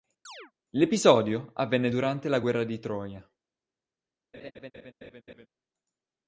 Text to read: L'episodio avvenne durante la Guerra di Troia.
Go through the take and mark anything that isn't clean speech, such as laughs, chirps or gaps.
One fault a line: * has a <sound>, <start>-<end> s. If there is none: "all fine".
* has a chirp, 0.3-0.5 s
* has a laugh, 4.3-5.5 s